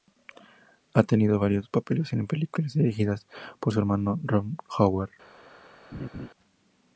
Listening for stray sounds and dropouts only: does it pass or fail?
fail